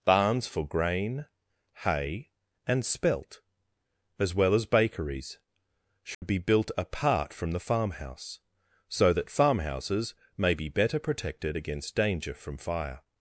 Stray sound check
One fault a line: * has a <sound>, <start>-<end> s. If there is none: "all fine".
* has a dropout, 6.1-6.2 s